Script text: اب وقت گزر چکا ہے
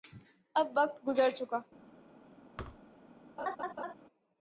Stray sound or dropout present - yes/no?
yes